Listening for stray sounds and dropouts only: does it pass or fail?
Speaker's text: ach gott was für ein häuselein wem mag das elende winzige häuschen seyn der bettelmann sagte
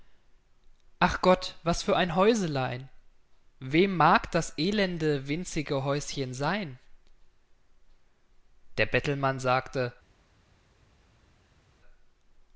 pass